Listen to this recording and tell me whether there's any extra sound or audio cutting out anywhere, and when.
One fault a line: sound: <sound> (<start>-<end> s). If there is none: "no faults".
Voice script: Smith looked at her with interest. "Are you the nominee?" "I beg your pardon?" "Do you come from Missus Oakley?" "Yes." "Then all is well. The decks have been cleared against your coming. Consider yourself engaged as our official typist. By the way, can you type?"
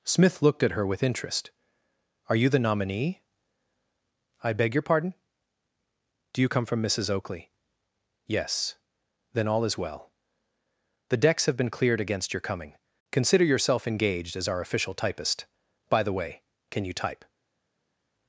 no faults